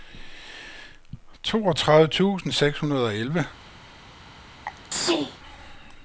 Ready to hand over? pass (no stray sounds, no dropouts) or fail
fail